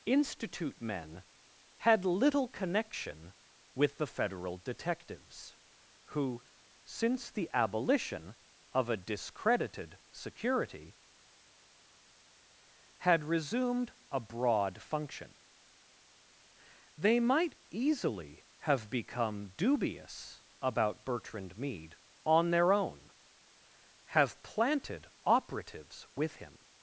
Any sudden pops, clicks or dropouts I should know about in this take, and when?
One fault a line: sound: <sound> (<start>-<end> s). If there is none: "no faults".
no faults